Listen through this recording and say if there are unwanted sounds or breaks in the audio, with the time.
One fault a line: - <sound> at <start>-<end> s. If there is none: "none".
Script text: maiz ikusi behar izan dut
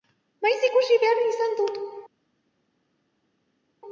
none